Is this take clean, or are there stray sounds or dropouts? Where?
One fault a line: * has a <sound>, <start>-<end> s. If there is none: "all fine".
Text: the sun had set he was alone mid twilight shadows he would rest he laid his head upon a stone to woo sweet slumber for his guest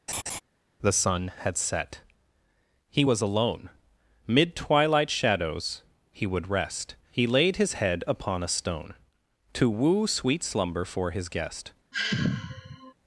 * has a laugh, 0.1-0.4 s
* has a sigh, 11.9-12.9 s